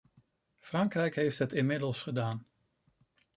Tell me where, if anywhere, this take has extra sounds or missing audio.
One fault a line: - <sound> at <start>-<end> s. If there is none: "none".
none